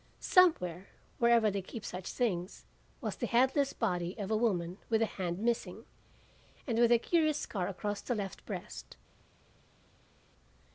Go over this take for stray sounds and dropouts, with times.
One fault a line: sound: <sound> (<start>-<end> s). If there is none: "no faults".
no faults